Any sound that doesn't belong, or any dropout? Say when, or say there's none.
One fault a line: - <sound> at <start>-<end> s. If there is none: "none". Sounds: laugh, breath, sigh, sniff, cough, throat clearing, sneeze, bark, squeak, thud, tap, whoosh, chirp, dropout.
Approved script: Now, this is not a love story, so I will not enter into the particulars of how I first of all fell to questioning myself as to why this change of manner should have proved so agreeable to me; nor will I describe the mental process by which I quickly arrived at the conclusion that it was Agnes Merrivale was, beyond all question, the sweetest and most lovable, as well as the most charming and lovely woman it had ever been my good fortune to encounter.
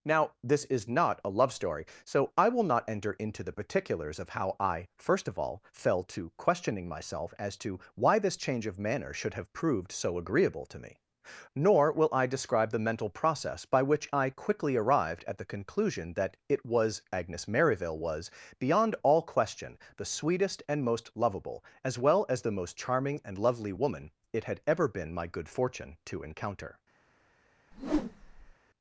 - whoosh at 27.7-28.5 s